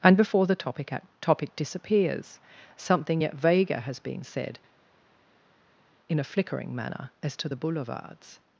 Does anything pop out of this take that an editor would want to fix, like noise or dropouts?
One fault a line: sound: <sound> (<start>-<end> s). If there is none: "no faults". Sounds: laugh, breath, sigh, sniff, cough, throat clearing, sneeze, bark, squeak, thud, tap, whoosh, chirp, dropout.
no faults